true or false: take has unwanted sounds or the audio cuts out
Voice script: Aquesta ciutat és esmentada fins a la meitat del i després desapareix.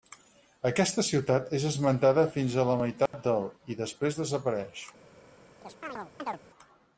true